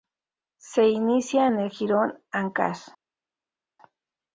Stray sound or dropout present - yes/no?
no